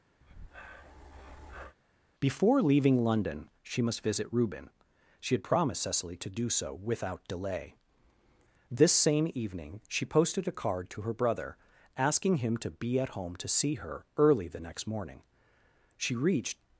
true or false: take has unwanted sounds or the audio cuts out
true